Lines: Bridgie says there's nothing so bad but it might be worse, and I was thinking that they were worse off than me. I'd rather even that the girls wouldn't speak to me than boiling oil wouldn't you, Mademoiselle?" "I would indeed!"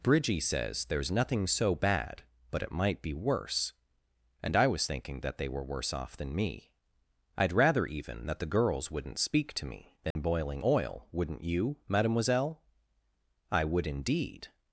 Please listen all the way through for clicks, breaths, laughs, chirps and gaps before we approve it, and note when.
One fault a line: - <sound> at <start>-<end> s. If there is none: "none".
- dropout at 10.1-10.2 s